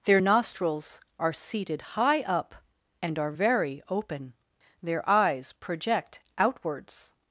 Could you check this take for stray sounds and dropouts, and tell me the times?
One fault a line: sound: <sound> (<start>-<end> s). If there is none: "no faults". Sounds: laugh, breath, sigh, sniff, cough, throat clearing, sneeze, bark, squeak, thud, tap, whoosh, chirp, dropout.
no faults